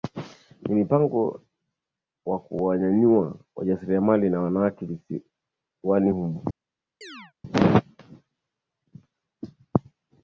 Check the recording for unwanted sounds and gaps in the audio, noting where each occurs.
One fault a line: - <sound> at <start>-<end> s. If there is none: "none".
- chirp at 7.0-7.3 s